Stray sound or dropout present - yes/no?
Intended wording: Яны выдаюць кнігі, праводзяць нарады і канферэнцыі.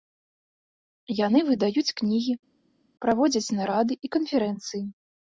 no